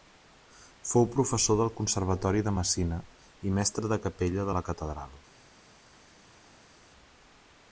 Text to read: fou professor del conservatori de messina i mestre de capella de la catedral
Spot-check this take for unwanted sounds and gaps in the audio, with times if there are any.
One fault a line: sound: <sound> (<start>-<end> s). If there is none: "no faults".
no faults